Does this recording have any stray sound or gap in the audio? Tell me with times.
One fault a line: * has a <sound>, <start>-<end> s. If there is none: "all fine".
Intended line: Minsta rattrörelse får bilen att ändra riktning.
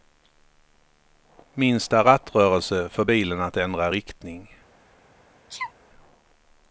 * has a sneeze, 5.5-5.7 s